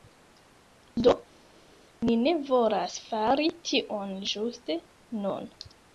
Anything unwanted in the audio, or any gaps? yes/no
no